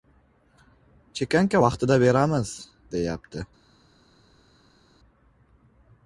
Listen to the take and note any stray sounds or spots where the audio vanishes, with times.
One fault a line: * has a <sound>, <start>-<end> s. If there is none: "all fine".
all fine